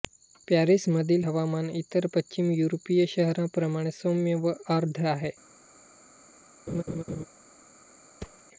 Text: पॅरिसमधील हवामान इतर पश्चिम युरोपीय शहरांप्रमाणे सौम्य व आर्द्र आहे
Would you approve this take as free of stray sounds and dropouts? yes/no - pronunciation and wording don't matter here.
no